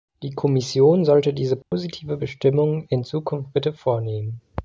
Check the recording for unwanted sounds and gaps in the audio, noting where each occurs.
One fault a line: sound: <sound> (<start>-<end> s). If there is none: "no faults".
sound: dropout (1.6-1.7 s)